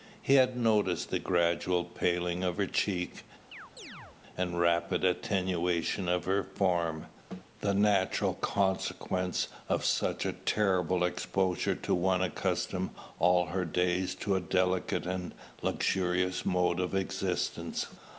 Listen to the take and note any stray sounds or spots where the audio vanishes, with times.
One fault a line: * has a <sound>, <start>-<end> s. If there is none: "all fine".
* has a chirp, 3.5-4.2 s